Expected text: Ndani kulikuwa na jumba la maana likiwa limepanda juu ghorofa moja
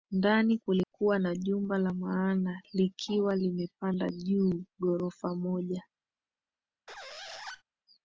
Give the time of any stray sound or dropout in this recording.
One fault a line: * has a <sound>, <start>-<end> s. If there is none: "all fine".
* has a dropout, 0.8-0.9 s
* has a squeak, 6.9-7.6 s